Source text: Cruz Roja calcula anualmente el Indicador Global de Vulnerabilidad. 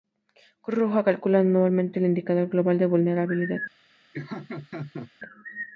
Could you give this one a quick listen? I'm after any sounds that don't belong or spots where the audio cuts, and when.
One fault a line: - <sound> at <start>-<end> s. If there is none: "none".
- laugh at 4.1-5.1 s